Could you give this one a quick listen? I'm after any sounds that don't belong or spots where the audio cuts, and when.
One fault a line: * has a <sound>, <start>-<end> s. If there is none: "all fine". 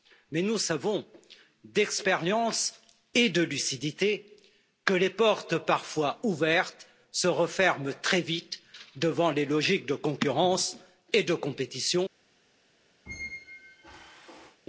* has a squeak, 13.1-14.6 s